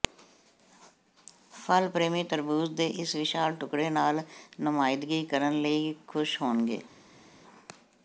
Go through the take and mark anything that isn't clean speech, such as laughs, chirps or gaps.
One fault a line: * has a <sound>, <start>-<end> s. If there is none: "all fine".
all fine